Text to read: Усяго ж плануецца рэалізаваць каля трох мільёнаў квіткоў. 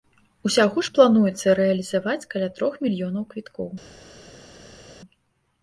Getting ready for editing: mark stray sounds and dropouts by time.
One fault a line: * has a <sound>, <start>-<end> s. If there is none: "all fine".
all fine